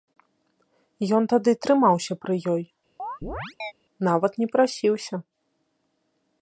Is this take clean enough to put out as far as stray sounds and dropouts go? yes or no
no